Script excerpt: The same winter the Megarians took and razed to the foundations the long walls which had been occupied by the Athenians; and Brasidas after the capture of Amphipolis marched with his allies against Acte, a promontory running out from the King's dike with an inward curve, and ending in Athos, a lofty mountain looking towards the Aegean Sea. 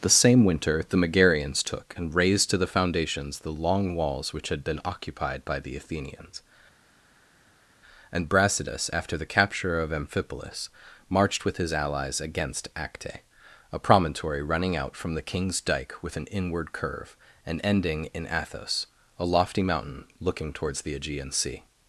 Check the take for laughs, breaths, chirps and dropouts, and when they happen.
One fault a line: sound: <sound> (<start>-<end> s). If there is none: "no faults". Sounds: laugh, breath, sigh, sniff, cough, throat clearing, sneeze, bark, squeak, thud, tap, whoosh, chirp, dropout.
no faults